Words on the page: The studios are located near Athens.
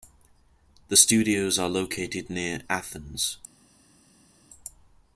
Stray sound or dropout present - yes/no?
no